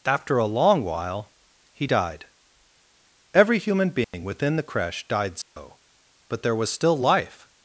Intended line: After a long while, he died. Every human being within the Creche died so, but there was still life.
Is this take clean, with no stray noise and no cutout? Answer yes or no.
no